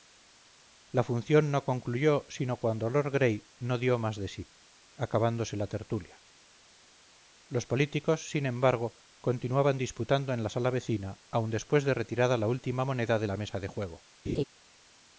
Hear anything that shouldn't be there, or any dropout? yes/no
yes